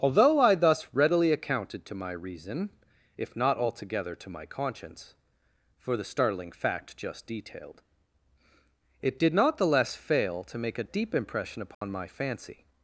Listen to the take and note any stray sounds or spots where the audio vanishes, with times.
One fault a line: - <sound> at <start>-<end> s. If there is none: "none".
- dropout at 11.7-11.8 s